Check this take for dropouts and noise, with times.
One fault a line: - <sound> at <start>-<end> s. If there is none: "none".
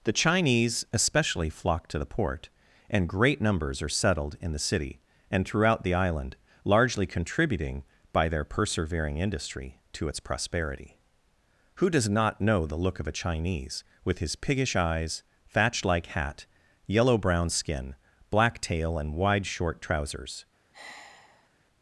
- sigh at 20.7-21.5 s